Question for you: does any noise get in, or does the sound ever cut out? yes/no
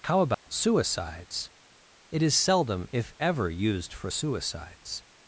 yes